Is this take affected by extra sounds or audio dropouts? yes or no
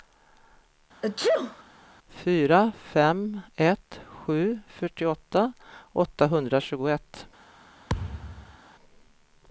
yes